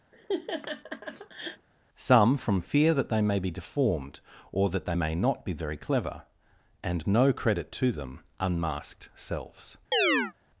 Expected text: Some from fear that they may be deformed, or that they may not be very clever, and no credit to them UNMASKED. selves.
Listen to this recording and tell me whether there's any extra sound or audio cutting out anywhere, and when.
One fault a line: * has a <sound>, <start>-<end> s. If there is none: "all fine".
* has a laugh, 0.1-1.7 s
* has a chirp, 9.9-10.3 s